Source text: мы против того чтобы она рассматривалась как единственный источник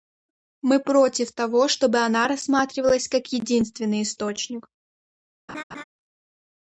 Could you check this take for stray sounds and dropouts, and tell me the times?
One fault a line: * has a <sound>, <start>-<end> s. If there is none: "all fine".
* has a laugh, 5.5-5.8 s